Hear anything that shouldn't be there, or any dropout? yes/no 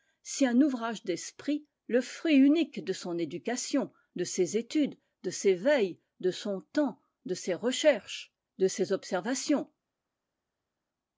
no